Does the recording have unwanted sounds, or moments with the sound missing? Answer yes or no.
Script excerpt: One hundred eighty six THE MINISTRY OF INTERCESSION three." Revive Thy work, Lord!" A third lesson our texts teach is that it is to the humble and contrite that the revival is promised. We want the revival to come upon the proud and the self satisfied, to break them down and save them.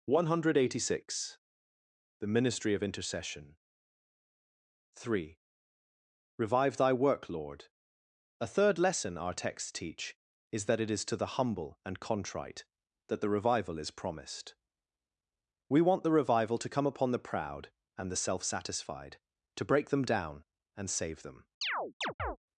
yes